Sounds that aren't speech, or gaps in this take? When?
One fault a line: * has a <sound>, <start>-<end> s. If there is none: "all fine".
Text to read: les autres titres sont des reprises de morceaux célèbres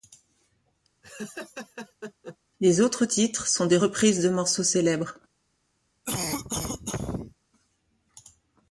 * has a laugh, 1.0-2.4 s
* has a cough, 6.0-7.3 s